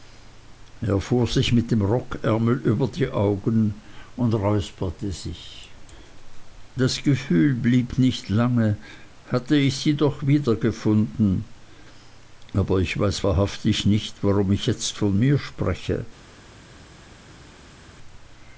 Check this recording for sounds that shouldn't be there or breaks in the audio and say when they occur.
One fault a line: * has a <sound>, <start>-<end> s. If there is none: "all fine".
all fine